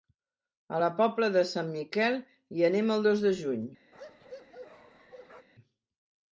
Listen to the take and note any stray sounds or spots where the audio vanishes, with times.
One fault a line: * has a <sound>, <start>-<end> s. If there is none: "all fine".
* has a bark, 3.9-5.5 s